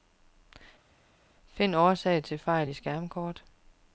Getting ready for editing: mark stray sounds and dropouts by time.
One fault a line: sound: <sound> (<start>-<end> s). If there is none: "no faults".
no faults